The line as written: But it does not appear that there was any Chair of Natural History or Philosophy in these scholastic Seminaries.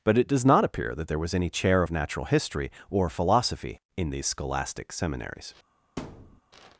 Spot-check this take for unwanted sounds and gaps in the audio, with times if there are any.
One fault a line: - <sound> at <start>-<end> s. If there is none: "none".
- thud at 6.0-6.4 s